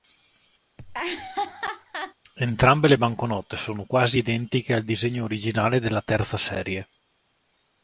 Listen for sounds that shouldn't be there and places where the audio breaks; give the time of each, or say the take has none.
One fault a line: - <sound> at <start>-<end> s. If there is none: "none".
- laugh at 0.8-2.1 s